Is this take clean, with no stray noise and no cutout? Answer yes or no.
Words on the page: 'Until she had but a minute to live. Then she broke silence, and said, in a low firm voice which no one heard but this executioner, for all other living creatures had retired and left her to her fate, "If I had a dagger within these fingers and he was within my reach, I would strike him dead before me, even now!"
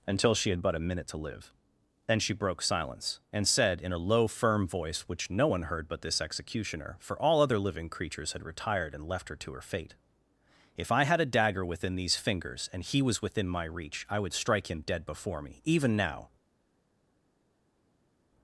yes